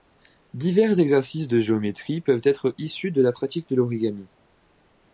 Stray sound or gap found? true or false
false